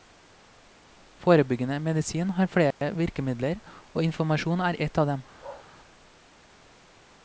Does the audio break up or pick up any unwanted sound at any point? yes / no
yes